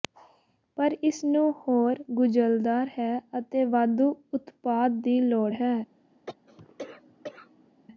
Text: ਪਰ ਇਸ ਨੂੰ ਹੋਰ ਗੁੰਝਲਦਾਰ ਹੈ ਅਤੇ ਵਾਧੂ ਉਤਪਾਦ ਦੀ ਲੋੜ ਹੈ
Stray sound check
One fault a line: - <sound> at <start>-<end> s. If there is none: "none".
- cough at 6.3-7.7 s